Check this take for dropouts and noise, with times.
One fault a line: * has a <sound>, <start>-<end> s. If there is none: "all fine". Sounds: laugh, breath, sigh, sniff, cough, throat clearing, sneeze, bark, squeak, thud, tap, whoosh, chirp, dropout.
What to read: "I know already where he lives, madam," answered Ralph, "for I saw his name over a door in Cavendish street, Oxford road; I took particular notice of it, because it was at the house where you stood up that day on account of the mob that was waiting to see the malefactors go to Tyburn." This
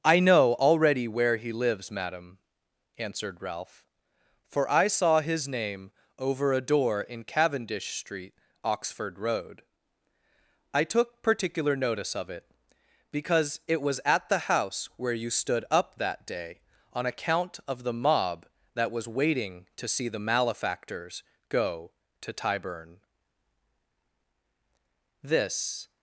all fine